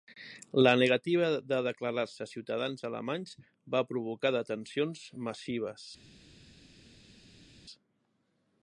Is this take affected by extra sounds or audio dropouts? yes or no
no